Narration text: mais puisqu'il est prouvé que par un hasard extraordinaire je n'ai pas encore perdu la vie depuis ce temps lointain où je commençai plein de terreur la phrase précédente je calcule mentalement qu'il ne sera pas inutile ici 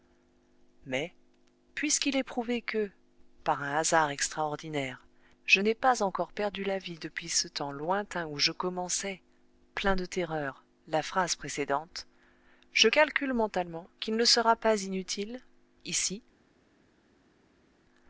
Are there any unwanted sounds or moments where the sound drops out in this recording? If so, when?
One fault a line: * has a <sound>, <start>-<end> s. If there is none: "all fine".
all fine